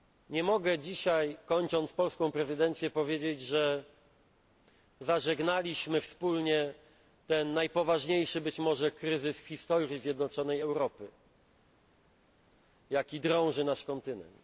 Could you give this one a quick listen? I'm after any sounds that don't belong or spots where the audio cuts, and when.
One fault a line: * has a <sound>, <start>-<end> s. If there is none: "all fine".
all fine